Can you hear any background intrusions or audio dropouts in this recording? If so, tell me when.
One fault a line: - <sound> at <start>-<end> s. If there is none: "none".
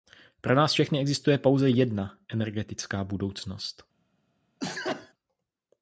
- sneeze at 4.6-5.1 s